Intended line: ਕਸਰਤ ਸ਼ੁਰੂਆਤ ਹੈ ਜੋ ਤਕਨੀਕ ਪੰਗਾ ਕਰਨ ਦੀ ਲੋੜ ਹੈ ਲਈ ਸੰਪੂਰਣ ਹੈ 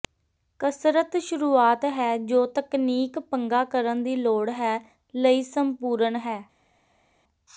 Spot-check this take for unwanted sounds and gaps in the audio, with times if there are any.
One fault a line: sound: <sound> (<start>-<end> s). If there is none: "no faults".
no faults